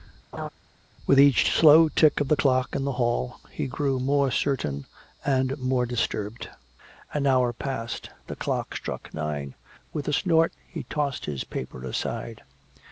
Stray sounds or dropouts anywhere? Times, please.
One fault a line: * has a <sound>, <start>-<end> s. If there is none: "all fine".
* has a laugh, 0.3-0.5 s